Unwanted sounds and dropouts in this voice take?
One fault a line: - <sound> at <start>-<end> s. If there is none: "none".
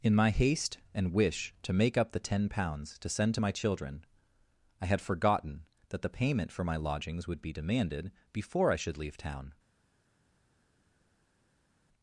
none